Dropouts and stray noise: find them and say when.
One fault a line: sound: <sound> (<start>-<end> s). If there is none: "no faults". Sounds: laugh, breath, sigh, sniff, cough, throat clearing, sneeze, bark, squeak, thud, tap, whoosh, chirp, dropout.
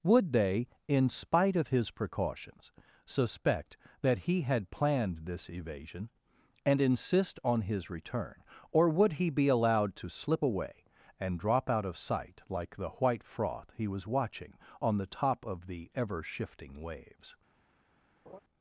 sound: laugh (18.3-18.4 s)